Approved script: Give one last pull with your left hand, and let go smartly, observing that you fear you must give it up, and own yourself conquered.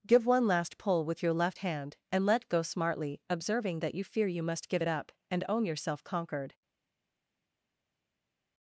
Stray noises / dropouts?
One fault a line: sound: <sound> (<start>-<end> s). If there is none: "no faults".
no faults